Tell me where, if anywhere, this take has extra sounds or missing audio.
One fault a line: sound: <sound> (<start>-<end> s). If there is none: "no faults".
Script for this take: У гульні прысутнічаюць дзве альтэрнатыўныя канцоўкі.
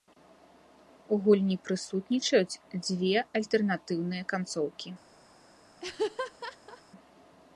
sound: laugh (5.8-6.8 s)